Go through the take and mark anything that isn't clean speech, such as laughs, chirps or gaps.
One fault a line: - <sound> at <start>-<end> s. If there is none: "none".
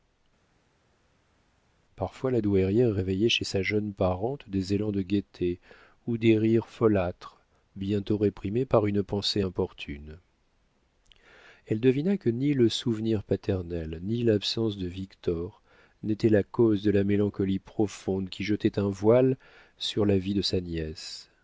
none